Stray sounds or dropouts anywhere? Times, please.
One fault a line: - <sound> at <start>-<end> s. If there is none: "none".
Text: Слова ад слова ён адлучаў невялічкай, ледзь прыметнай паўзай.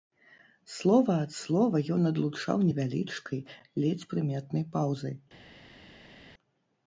none